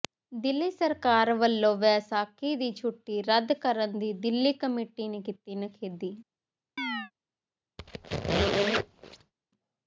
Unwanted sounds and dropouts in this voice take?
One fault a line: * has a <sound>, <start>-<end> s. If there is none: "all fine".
* has a chirp, 6.8-7.1 s
* has a squeak, 7.8-9.3 s